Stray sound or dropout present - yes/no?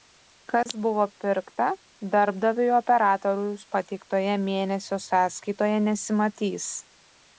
yes